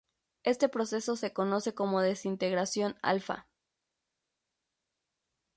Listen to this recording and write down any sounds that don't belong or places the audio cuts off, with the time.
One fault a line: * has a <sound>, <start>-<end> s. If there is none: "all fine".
all fine